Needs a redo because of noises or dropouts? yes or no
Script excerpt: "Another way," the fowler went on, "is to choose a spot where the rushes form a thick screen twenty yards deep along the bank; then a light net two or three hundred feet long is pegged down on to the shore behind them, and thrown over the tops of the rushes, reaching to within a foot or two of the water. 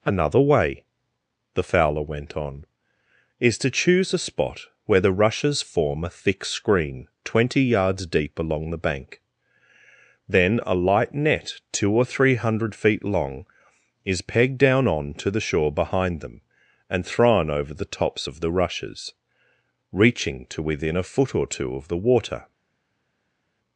no